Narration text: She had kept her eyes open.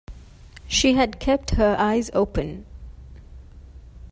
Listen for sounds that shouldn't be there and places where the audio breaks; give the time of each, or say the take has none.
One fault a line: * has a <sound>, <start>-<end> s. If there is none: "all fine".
all fine